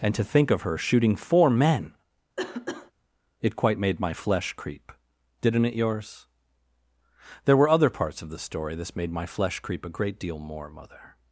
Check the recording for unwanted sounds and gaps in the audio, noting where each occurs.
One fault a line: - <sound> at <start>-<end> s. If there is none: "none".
- cough at 2.4-2.9 s